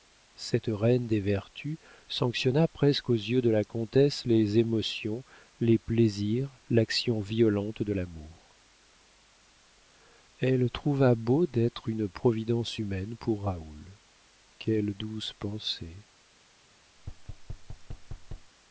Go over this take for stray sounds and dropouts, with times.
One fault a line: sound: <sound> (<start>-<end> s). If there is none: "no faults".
sound: thud (17.0-18.5 s)